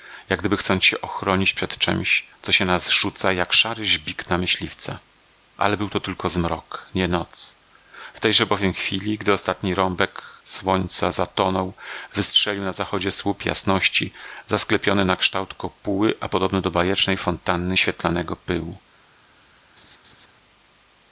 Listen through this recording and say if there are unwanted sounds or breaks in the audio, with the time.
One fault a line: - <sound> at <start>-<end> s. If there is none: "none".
- laugh at 19.8-20.3 s